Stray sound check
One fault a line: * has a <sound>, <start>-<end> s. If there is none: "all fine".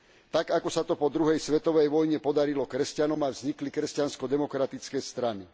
all fine